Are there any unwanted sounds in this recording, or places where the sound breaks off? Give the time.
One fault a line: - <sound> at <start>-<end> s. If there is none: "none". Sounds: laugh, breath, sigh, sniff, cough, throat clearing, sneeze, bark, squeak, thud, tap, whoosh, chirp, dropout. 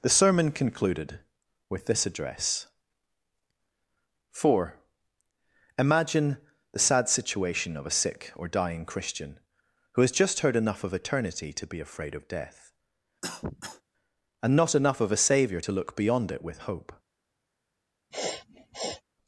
- cough at 13.2-13.8 s
- sniff at 18.1-19.0 s